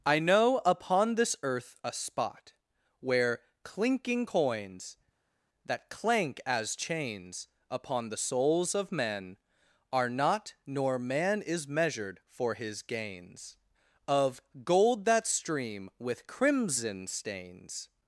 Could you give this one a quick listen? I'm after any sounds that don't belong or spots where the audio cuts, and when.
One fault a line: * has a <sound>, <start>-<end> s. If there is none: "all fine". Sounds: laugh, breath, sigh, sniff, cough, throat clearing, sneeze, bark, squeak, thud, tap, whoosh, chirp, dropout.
all fine